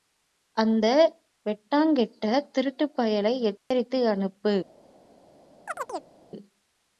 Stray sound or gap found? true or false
true